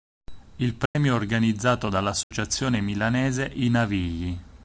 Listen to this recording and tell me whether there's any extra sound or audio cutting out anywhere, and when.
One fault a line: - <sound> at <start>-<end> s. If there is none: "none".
- dropout at 0.9-1.0 s
- dropout at 2.2-2.3 s